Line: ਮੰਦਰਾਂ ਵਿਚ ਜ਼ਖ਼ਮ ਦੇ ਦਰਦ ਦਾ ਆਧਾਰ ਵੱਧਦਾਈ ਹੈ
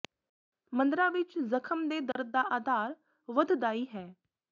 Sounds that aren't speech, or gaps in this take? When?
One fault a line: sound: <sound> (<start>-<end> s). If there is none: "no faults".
sound: dropout (2.1-2.2 s)